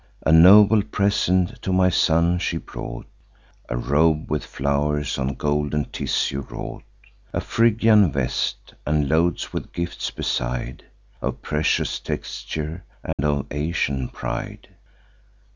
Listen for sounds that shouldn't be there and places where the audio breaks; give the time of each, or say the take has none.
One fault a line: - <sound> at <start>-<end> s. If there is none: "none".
- dropout at 13.1-13.2 s